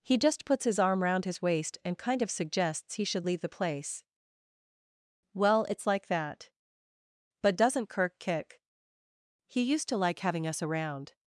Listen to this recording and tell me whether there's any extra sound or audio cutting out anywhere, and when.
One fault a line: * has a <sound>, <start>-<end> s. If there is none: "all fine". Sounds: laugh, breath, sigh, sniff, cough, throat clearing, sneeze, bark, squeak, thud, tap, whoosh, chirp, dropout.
all fine